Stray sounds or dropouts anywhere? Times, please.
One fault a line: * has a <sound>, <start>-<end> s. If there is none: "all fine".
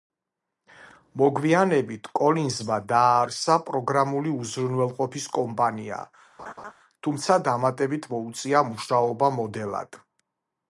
* has a laugh, 6.4-6.7 s